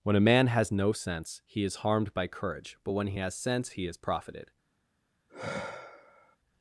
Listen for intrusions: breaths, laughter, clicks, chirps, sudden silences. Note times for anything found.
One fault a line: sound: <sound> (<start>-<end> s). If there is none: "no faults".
sound: sigh (5.3-6.4 s)